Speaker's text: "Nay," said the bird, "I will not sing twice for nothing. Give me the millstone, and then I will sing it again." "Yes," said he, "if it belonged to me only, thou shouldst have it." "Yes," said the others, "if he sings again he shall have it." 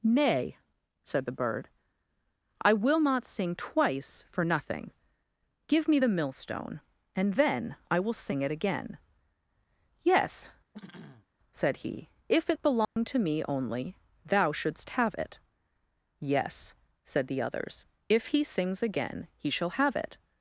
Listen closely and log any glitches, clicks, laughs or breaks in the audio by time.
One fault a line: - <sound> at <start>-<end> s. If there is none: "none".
- throat clearing at 10.7-11.3 s
- dropout at 12.8-13.0 s